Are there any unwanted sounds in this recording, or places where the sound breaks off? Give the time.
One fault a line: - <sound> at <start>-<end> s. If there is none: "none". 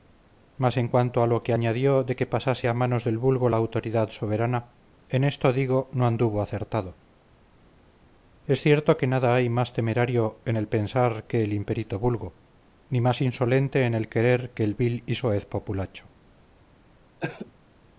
- cough at 17.2-17.5 s